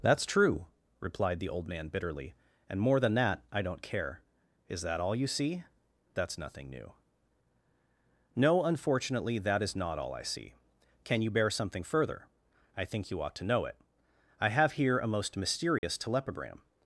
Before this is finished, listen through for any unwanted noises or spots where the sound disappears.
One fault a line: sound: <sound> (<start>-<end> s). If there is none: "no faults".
sound: dropout (15.8-15.8 s)